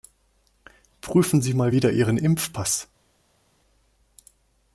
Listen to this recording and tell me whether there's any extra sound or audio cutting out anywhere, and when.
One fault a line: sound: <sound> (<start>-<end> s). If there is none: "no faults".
no faults